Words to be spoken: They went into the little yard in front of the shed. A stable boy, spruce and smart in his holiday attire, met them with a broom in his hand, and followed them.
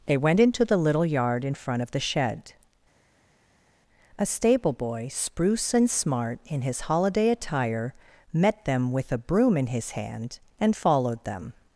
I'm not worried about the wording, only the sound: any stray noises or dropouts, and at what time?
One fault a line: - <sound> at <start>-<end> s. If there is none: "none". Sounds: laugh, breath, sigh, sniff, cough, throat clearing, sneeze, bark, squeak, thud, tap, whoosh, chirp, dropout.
none